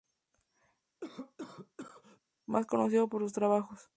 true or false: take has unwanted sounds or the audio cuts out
true